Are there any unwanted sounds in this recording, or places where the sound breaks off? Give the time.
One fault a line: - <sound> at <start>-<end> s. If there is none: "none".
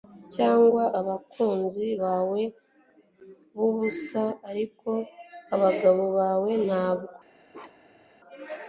- bark at 7.5-8.1 s